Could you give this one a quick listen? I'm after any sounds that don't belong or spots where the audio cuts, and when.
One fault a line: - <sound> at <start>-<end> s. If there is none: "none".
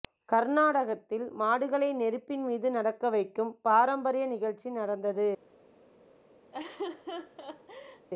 - laugh at 6.5-8.1 s